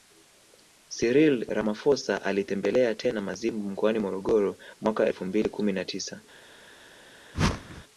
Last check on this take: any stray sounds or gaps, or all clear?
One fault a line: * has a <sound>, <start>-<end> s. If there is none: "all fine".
* has a whoosh, 7.3-7.8 s